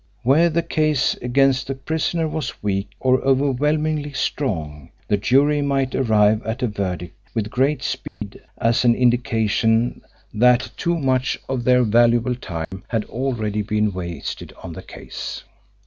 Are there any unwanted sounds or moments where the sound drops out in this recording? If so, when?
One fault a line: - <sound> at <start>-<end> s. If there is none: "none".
- dropout at 8.1-8.2 s
- dropout at 12.6-12.7 s